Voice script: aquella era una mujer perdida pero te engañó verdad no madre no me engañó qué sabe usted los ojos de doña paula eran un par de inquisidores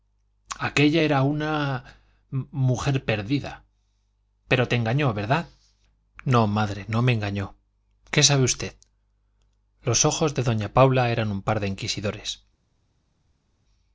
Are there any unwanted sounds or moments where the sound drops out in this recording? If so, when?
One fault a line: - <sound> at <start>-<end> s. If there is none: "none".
none